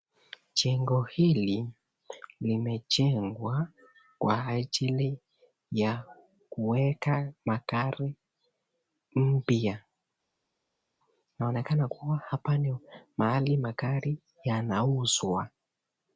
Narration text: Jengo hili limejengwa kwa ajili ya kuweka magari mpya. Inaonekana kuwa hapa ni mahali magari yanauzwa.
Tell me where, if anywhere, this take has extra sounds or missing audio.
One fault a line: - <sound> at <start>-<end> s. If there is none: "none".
none